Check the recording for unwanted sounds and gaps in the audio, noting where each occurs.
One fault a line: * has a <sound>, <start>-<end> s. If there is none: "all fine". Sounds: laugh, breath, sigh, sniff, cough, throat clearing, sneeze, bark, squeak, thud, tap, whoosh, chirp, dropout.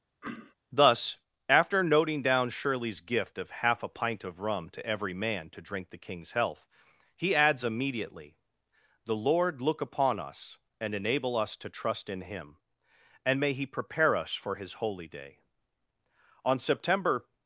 * has a throat clearing, 0.2-0.5 s